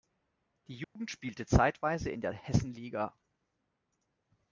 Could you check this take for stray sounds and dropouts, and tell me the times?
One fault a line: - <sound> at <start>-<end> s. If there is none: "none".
- dropout at 0.8-1.0 s